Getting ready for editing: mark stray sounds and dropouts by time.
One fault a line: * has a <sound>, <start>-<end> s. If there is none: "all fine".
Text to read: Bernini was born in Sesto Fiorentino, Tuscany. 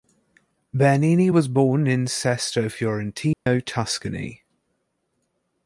* has a dropout, 3.3-3.5 s